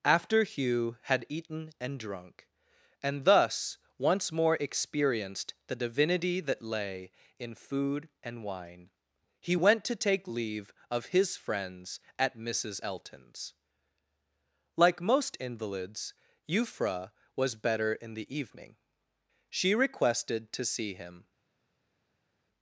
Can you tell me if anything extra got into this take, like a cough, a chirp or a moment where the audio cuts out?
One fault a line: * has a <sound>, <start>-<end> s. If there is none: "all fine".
all fine